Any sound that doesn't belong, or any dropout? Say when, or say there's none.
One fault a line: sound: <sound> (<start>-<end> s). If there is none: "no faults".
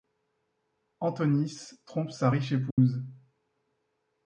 sound: dropout (2.7-2.8 s)